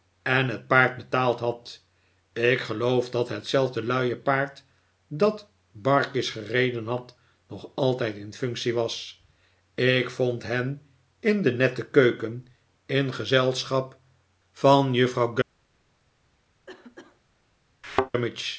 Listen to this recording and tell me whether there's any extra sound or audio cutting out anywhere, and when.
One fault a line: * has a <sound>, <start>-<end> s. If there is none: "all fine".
* has a cough, 16.7-17.2 s
* has a thud, 17.8-18.1 s